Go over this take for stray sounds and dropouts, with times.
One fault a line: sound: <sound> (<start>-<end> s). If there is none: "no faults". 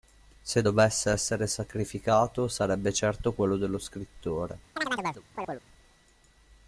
sound: chirp (4.8-5.6 s)